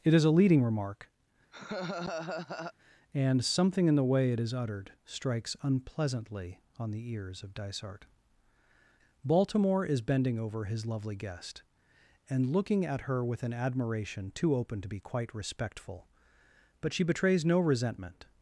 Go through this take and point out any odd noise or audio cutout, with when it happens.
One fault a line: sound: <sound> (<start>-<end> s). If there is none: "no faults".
sound: laugh (1.5-2.7 s)